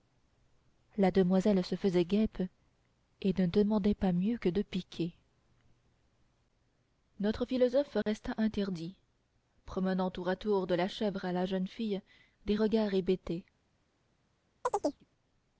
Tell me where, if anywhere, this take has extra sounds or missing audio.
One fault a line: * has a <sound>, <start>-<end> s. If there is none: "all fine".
* has a dropout, 8.0-8.1 s
* has a chirp, 14.6-15.0 s